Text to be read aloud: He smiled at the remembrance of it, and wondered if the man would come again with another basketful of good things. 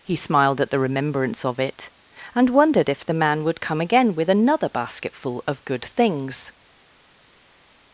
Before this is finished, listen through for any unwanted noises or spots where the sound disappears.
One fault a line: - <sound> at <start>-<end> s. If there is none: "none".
none